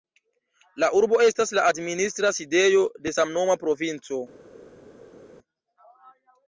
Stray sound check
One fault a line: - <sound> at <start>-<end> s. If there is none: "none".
none